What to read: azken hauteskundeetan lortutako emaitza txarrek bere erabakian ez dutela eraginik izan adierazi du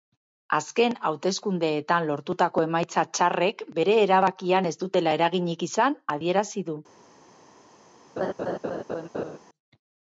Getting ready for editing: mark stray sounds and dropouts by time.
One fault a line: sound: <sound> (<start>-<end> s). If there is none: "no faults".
sound: laugh (8.2-9.4 s)